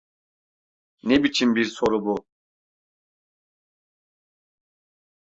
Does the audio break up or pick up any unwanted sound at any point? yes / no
no